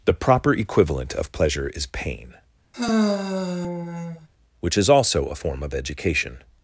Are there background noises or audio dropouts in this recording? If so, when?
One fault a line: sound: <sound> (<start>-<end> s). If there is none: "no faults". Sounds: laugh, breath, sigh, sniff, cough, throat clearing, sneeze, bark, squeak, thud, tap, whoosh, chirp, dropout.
sound: sigh (2.7-4.3 s)